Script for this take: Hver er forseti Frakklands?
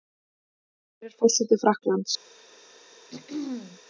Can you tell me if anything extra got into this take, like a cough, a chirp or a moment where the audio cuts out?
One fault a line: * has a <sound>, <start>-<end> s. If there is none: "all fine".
* has a throat clearing, 3.1-3.8 s